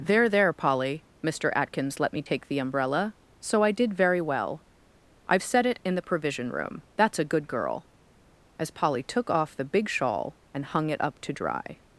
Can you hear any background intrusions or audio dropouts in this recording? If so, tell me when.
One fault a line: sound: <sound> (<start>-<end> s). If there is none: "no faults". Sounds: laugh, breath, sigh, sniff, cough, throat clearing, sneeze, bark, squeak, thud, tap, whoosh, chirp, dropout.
no faults